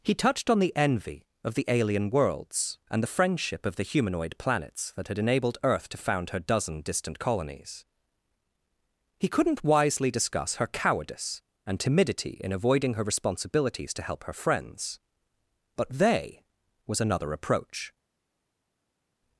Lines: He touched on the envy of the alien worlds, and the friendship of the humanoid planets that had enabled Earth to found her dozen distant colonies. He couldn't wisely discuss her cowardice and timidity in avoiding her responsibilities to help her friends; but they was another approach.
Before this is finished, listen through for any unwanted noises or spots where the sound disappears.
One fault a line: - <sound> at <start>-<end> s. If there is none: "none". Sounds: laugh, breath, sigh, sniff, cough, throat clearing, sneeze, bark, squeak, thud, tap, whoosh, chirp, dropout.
none